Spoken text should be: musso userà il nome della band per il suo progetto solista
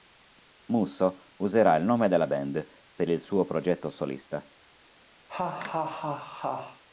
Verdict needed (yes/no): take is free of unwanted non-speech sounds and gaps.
no